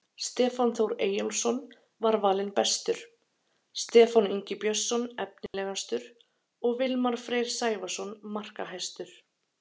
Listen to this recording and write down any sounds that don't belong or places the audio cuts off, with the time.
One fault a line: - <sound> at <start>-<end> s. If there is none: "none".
- dropout at 5.5-5.5 s